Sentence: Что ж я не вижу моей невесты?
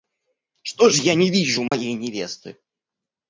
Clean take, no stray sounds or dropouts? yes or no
no